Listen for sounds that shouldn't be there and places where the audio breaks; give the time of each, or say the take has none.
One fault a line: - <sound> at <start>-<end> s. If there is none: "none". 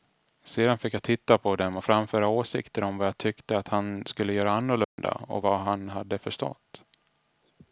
- dropout at 4.8-5.0 s